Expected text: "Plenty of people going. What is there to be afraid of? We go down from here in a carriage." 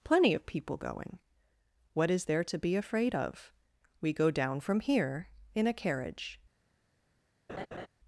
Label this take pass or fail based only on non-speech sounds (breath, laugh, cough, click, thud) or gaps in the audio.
fail